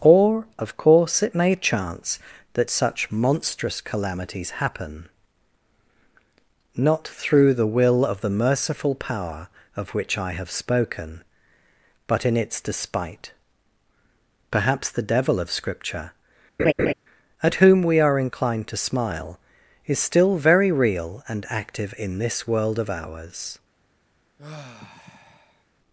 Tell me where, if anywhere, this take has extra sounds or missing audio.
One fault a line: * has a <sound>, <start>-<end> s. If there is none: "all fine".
* has a laugh, 16.6-16.9 s
* has a sigh, 24.4-25.7 s